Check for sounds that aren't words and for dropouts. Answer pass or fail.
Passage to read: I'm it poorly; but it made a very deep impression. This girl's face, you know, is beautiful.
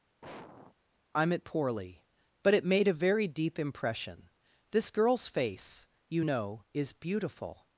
fail